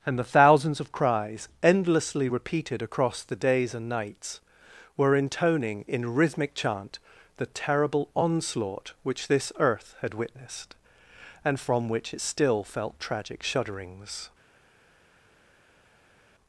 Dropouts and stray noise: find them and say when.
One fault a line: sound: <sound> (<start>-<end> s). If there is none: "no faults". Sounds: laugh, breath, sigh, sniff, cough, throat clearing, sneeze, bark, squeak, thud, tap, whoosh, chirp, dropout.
no faults